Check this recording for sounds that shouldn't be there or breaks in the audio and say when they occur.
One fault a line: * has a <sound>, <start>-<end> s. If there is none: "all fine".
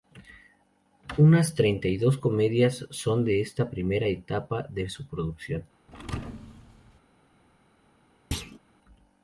* has a thud, 5.9-7.0 s
* has a thud, 8.3-8.6 s